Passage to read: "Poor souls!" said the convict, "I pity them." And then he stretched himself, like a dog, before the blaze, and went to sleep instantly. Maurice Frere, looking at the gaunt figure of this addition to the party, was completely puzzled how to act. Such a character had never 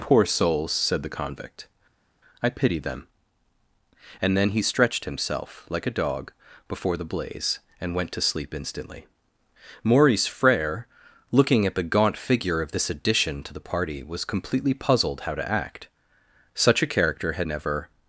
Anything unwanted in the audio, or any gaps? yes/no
no